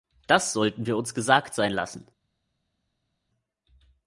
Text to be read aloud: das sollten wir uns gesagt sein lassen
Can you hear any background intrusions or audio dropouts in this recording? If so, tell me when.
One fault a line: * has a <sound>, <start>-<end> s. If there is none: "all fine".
all fine